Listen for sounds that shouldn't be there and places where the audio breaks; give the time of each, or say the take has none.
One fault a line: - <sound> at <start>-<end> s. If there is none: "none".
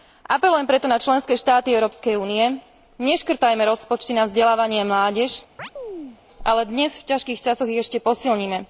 - chirp at 5.6-6.2 s